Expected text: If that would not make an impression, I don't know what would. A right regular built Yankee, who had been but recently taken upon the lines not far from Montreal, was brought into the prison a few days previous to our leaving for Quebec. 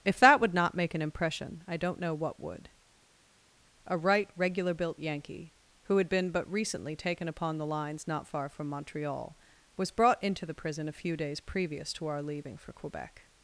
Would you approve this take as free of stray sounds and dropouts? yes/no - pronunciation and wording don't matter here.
yes